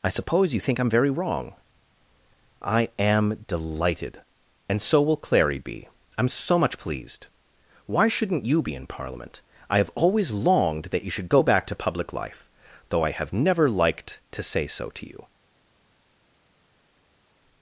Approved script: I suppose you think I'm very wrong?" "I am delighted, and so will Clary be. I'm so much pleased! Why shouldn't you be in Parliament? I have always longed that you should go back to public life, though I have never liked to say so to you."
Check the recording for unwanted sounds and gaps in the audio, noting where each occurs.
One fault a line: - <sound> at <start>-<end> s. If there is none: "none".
none